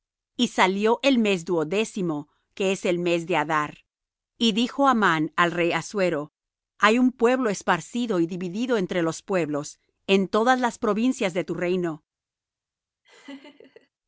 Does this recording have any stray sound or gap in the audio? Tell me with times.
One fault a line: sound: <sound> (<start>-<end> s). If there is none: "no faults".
sound: laugh (13.0-13.9 s)